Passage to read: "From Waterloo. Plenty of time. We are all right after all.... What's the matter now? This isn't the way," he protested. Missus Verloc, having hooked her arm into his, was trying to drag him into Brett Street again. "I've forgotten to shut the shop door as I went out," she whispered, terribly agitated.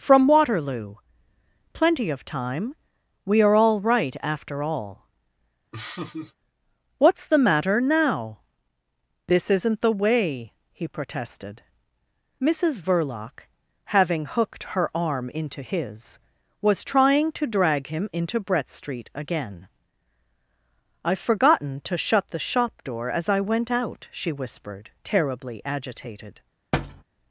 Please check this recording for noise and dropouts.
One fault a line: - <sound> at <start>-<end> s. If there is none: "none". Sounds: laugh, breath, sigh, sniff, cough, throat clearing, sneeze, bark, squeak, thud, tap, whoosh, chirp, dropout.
- laugh at 5.7-6.3 s
- thud at 26.7-27.0 s